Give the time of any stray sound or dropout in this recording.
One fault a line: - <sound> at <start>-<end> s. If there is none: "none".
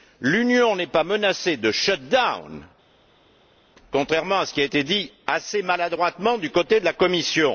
none